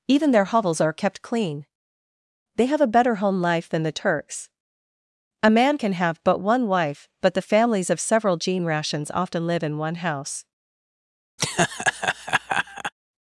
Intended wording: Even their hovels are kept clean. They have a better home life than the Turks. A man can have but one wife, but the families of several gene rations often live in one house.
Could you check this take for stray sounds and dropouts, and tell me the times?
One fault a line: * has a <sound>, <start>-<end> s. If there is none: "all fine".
* has a laugh, 11.4-12.9 s